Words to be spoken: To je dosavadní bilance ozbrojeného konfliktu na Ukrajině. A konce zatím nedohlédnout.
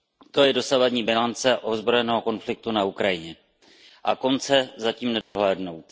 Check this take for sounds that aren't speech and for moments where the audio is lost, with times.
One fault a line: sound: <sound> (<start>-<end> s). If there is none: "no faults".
sound: dropout (5.2-5.4 s)